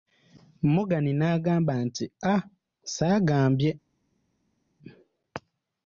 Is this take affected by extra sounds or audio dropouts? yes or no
no